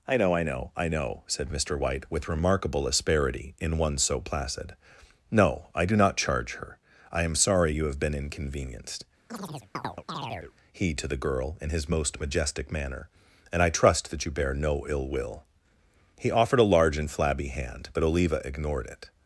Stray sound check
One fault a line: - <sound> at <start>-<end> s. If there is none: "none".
- chirp at 9.3-10.5 s